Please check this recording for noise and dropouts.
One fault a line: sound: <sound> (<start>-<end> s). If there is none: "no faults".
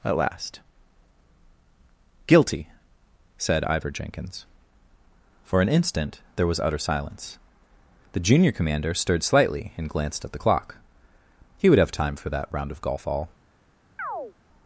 sound: chirp (14.0-14.3 s)